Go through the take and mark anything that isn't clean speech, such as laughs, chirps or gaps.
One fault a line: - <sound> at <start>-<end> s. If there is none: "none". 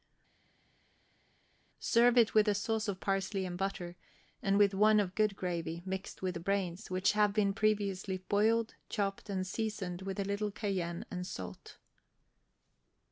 none